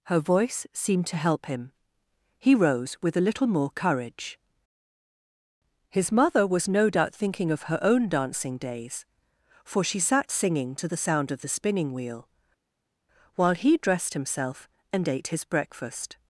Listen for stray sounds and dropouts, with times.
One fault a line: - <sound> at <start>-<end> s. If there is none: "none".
none